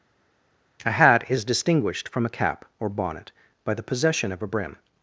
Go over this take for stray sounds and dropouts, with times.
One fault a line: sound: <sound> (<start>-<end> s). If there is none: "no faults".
no faults